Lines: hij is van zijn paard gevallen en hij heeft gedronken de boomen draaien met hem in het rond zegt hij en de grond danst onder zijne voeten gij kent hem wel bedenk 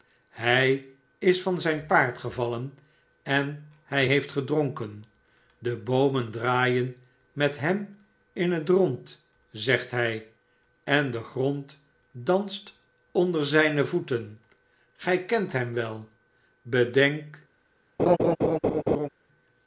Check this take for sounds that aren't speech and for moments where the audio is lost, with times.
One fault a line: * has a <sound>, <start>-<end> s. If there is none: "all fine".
* has a laugh, 18.0-19.1 s